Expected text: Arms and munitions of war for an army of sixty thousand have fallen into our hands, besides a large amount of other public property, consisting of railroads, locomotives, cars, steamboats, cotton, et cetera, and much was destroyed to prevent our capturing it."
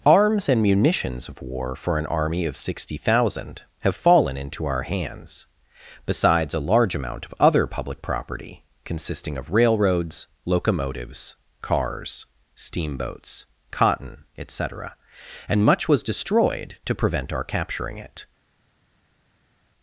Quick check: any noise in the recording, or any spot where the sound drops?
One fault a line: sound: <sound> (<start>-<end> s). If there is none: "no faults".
no faults